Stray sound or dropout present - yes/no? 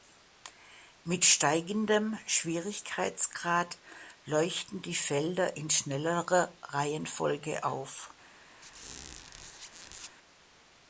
yes